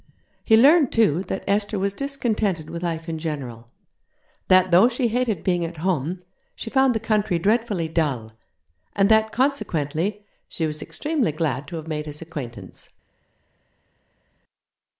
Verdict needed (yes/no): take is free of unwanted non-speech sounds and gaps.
yes